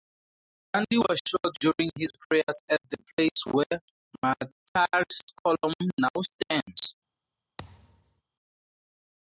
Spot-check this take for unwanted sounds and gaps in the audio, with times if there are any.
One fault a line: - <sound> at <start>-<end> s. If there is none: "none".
- thud at 7.6-8.2 s